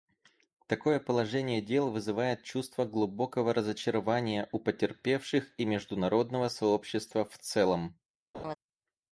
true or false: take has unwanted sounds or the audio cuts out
true